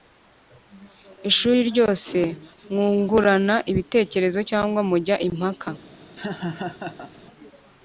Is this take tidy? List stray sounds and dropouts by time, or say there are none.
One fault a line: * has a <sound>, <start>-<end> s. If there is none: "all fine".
* has a laugh, 6.2-7.1 s